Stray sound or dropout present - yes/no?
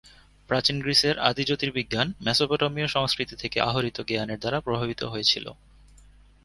no